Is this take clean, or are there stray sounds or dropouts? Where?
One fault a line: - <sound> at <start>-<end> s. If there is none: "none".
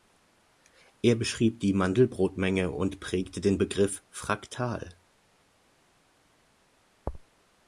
none